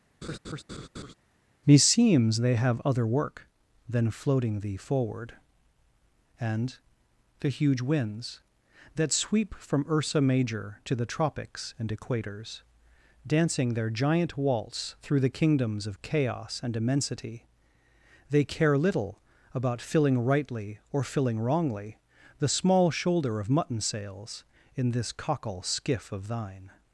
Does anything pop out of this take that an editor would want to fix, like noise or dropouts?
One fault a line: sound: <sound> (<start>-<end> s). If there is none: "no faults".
sound: laugh (0.2-1.1 s)